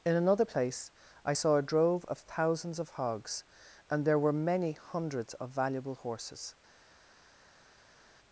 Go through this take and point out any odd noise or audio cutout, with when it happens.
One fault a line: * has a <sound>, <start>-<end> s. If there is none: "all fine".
all fine